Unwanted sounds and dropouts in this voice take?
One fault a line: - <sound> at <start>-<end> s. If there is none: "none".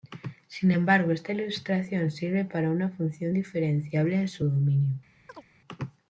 - chirp at 5.3-5.4 s